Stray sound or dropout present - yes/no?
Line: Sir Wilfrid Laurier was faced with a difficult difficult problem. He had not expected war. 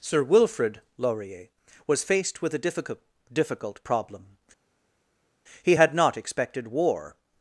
no